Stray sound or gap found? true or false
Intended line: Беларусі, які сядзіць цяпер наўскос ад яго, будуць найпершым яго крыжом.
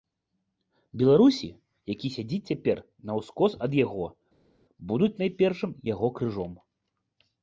false